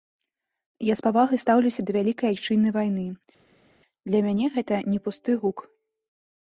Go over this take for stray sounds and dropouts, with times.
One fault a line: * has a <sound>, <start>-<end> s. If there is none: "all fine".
all fine